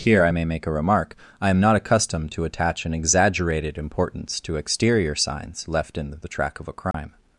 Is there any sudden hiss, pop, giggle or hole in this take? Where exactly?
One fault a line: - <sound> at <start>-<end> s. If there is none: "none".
- dropout at 6.9-6.9 s